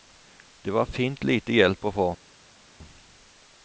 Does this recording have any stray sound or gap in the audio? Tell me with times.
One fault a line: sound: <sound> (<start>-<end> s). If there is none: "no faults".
no faults